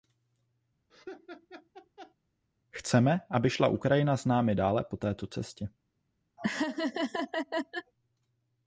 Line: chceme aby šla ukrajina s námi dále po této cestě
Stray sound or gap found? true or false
true